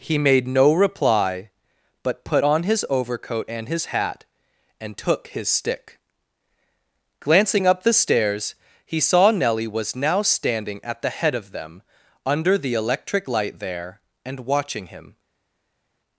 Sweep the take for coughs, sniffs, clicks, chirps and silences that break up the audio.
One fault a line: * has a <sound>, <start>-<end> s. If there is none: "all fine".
all fine